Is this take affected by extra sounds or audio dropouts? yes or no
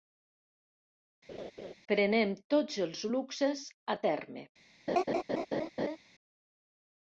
yes